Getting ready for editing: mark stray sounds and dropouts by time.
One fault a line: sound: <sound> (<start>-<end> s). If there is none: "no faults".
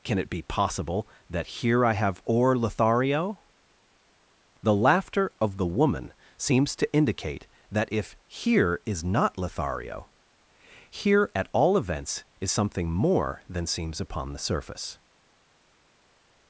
no faults